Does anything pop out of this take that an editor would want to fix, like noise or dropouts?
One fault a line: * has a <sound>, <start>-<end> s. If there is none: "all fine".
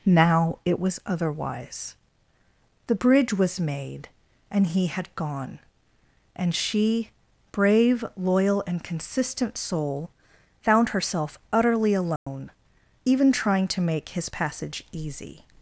* has a dropout, 12.2-12.3 s